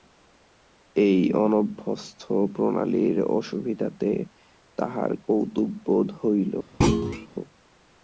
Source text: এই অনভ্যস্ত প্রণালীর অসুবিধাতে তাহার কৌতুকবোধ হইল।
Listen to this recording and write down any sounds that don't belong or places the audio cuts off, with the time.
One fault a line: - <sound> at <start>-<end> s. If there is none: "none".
- thud at 6.8-7.3 s